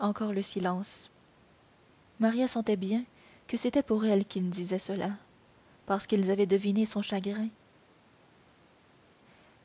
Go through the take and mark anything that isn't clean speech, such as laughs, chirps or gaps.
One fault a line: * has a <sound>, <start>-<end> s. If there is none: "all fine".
all fine